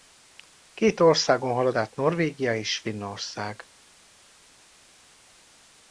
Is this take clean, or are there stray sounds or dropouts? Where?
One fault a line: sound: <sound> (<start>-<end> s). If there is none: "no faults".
no faults